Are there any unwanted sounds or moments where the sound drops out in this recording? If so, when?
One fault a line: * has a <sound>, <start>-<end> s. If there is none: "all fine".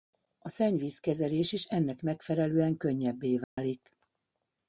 * has a dropout, 3.4-3.6 s